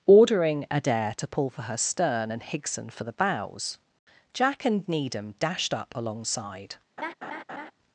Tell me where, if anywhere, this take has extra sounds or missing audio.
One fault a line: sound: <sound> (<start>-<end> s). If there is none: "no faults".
sound: laugh (7.0-7.7 s)